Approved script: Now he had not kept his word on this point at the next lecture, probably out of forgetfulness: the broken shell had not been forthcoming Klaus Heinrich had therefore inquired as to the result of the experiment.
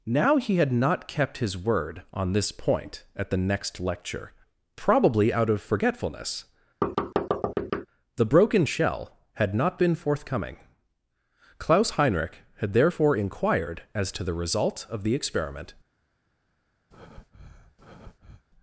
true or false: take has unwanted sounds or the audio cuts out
true